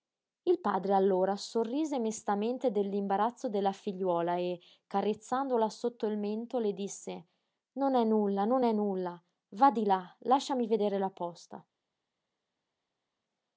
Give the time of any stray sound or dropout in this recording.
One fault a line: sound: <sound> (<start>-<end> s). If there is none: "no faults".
no faults